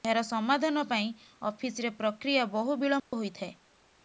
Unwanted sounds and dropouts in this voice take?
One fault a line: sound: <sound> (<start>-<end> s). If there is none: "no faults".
sound: dropout (3.0-3.1 s)